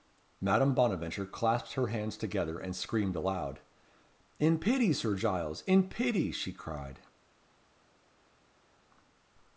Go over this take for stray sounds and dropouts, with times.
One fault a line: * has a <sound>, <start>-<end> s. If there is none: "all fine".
all fine